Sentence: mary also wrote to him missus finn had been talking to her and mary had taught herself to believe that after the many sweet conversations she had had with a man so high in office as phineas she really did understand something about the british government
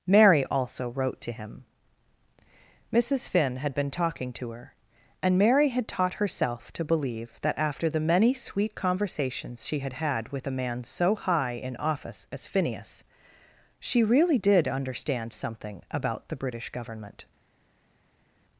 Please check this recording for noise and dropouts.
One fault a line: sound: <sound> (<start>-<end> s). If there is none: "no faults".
no faults